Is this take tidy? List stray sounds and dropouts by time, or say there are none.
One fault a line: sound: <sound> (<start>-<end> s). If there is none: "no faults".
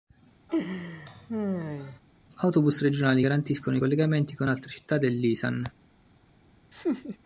sound: laugh (0.5-2.0 s)
sound: laugh (6.7-7.2 s)